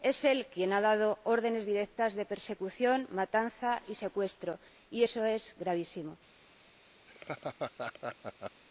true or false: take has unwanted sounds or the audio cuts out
true